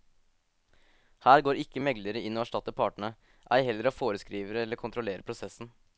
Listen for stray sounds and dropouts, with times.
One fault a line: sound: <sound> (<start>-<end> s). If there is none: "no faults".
no faults